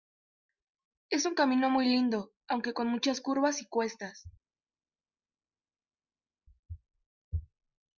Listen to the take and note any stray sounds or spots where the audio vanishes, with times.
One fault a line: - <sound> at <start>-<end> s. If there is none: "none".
none